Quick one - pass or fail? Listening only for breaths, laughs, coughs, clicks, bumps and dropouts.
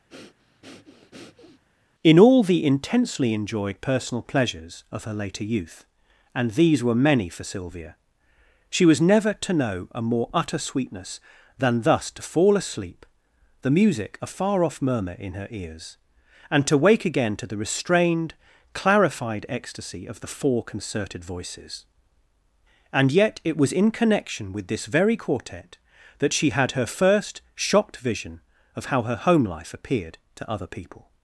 fail